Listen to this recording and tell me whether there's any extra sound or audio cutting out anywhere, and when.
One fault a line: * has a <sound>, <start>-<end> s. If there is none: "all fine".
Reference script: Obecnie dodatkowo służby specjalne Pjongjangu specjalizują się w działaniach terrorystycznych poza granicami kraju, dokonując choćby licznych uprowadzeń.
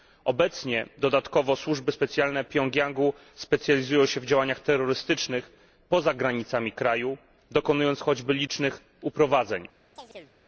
* has a chirp, 10.0-10.4 s